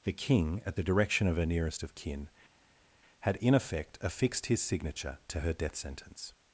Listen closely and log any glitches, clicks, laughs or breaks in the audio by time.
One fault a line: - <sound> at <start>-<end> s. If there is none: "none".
none